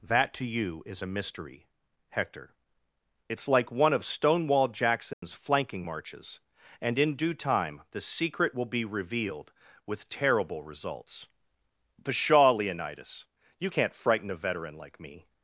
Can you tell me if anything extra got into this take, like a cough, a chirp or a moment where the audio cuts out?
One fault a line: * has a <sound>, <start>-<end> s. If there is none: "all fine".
* has a dropout, 5.1-5.2 s